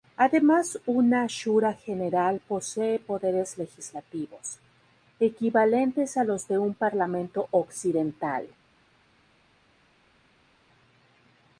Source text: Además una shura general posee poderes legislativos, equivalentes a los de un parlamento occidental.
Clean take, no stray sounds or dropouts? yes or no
yes